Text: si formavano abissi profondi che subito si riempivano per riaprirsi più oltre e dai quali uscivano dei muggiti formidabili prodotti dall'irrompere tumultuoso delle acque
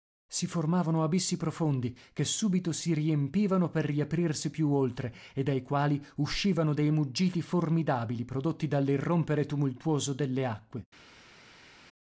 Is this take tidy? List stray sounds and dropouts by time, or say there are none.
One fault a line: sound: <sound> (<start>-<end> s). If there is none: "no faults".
no faults